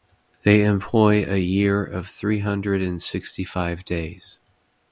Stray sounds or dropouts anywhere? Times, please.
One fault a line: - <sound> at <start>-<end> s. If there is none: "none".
none